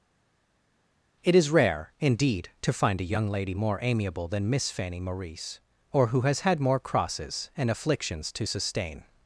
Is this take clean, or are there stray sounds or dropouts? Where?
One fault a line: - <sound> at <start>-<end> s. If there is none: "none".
none